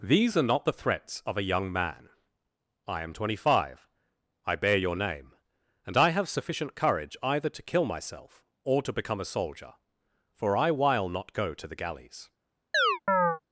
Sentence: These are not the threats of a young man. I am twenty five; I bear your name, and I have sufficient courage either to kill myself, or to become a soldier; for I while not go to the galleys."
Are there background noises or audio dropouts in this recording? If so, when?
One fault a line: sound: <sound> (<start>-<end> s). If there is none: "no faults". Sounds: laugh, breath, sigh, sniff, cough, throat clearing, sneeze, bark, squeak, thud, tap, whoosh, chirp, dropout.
sound: chirp (12.7-13.4 s)